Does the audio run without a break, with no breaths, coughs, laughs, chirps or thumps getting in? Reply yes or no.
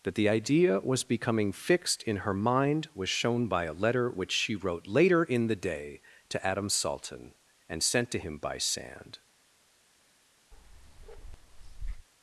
no